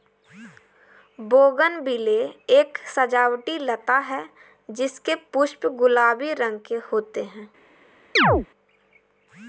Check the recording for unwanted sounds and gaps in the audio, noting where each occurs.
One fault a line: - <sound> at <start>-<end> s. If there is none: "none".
- chirp at 8.2-8.5 s